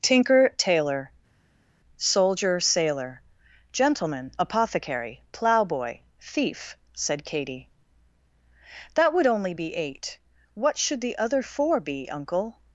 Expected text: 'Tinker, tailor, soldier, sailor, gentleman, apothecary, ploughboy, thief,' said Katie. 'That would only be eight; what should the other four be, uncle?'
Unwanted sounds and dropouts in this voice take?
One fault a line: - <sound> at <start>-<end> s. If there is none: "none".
none